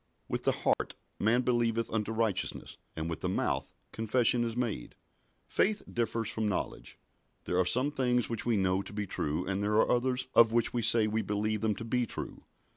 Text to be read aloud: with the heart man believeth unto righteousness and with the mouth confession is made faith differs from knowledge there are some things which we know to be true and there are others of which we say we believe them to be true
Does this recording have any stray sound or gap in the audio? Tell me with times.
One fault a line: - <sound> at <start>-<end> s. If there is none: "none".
- dropout at 0.7-0.8 s